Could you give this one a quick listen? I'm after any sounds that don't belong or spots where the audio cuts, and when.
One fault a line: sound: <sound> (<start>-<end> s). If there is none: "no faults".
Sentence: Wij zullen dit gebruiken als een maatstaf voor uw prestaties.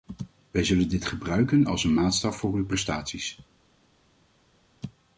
no faults